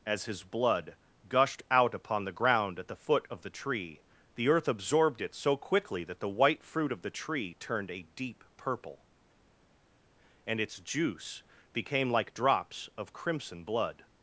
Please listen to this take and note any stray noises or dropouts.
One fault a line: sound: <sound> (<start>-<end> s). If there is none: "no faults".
no faults